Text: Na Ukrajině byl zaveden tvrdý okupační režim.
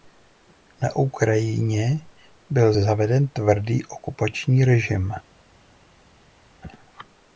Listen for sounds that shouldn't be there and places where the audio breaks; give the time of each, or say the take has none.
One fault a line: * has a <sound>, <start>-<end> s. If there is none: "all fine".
all fine